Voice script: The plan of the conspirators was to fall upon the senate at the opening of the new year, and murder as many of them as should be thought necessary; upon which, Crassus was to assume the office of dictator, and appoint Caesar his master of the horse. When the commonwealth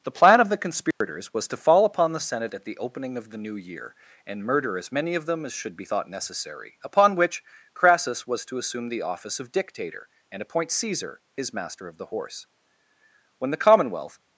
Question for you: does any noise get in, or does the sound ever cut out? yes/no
yes